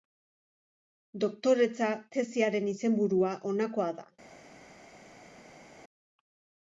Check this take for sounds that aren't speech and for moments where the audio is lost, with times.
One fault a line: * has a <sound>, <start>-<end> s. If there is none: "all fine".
all fine